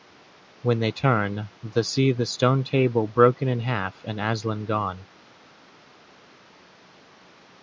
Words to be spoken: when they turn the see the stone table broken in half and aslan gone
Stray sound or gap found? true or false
false